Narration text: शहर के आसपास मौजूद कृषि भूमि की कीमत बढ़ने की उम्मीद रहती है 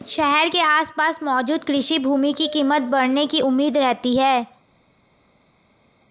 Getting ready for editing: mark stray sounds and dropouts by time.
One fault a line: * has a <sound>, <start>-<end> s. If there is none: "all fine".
all fine